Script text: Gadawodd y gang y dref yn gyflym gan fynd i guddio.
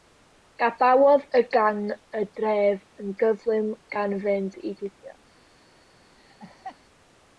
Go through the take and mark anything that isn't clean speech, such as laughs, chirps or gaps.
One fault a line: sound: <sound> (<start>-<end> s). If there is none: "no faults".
sound: laugh (6.2-6.8 s)